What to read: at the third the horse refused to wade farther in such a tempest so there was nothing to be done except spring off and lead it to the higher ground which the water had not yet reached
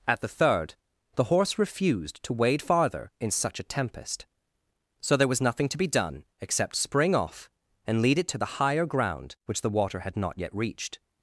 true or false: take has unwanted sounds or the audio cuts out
false